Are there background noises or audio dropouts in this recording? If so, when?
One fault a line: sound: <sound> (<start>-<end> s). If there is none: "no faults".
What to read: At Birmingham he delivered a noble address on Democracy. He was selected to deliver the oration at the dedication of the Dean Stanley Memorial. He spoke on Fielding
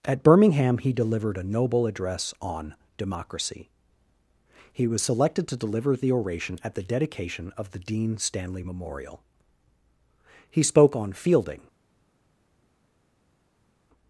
no faults